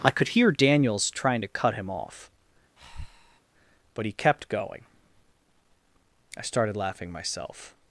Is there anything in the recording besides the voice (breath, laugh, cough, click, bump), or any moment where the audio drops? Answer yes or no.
yes